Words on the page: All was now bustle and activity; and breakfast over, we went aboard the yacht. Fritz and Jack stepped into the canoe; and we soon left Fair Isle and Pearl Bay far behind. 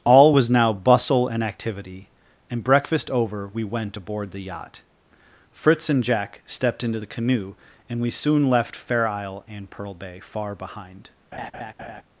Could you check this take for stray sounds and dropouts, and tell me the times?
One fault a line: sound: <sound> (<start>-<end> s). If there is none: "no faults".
sound: laugh (11.3-12.0 s)